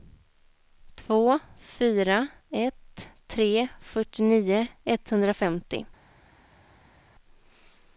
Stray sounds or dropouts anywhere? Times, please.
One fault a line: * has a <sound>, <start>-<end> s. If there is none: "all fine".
all fine